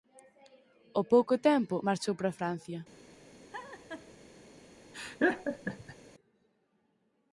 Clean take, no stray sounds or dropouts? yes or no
no